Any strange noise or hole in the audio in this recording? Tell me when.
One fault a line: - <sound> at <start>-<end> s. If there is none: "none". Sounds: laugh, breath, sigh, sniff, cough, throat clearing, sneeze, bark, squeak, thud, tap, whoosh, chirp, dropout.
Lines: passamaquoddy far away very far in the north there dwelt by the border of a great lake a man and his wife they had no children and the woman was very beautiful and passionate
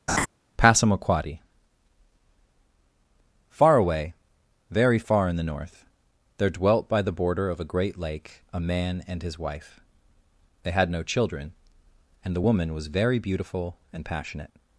- laugh at 0.1-0.3 s